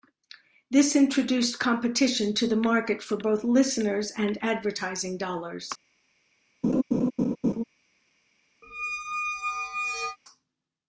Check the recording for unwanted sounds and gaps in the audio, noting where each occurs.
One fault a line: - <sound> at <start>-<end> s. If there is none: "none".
- laugh at 6.6-7.6 s
- squeak at 8.6-10.2 s